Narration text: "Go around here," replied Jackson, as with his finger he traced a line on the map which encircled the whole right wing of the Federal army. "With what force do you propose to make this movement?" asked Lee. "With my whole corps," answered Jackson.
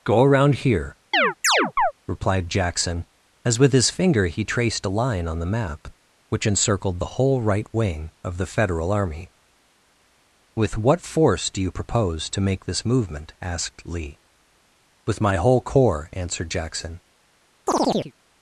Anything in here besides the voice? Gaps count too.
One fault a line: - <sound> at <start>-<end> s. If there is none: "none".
- chirp at 1.1-1.9 s
- chirp at 17.7-18.1 s